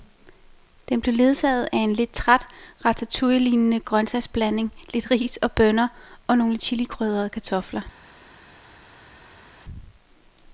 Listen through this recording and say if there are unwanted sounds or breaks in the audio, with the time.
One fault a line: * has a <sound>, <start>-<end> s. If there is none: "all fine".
all fine